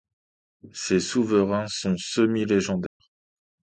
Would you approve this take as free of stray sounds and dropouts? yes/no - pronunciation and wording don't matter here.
no